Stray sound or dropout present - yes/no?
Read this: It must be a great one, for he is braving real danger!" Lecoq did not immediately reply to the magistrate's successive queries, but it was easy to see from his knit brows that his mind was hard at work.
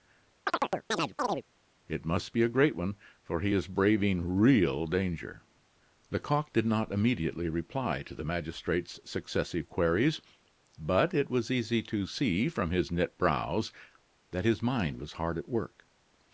yes